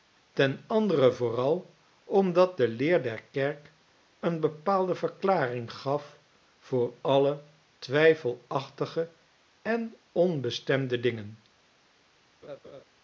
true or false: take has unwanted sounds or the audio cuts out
true